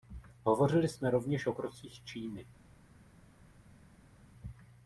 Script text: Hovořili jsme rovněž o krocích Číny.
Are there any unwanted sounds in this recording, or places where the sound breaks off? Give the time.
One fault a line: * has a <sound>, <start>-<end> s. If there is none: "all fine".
all fine